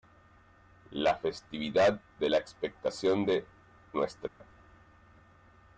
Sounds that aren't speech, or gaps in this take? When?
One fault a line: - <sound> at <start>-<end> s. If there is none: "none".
- dropout at 4.3-4.4 s